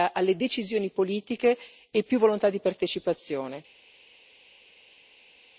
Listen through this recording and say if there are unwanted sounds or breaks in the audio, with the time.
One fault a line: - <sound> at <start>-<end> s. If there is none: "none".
none